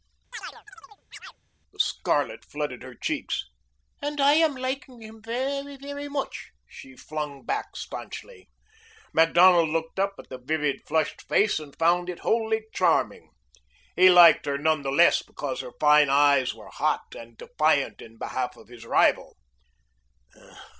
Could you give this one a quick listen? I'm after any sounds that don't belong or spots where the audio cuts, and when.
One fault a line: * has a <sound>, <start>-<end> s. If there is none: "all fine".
* has a chirp, 0.3-1.4 s